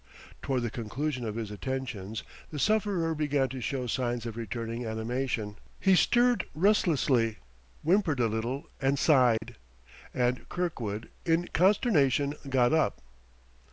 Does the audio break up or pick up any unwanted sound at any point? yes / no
yes